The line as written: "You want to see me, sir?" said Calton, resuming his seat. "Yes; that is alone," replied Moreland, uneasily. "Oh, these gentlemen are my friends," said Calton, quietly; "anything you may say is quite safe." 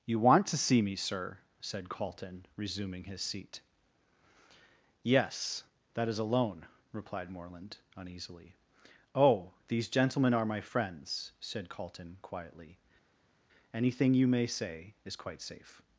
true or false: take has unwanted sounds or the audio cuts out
false